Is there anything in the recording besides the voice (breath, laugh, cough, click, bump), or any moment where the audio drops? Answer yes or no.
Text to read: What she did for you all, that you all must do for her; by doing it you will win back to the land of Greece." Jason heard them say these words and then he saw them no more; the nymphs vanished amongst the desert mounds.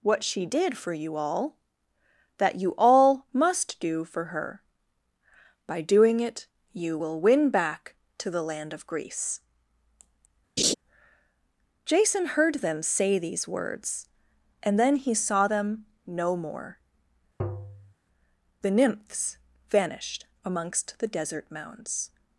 yes